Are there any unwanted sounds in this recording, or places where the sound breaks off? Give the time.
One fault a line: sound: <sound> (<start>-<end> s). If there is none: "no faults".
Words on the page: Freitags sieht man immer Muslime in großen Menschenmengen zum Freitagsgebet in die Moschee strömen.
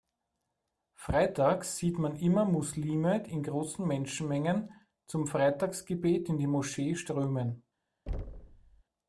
sound: thud (8.1-8.8 s)